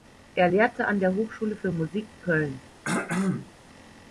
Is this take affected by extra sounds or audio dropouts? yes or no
yes